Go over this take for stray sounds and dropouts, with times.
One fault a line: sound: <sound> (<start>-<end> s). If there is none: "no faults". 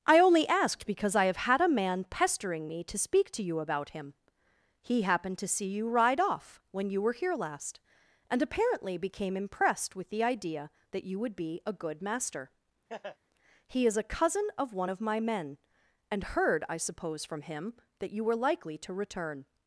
sound: laugh (12.9-13.2 s)